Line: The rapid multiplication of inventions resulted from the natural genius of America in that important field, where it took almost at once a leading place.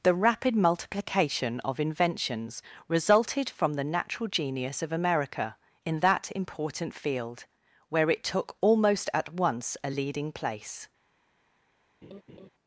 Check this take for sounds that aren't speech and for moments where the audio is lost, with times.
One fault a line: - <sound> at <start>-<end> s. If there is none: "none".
- laugh at 12.0-12.5 s